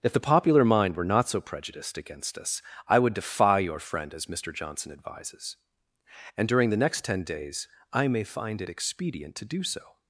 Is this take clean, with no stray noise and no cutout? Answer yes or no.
yes